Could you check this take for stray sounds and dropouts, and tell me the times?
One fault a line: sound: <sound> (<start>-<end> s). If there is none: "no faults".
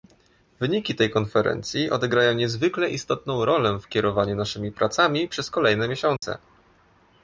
sound: dropout (6.2-6.2 s)